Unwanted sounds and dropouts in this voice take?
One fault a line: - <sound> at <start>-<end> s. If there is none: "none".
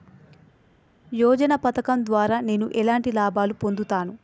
none